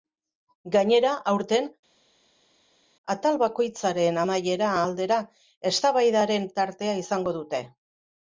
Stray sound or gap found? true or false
false